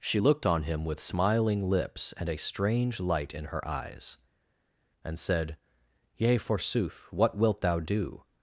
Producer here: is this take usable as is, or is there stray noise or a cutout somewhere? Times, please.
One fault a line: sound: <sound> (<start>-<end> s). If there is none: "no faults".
no faults